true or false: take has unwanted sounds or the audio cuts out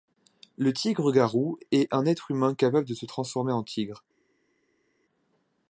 false